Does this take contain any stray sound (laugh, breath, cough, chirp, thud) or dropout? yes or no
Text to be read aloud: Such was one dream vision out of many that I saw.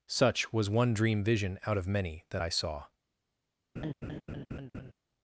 yes